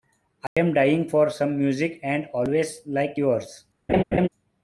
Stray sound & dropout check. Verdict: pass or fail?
fail